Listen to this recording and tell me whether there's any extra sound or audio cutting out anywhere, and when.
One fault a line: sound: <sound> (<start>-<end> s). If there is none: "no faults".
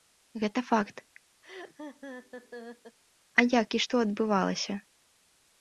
sound: laugh (1.4-3.0 s)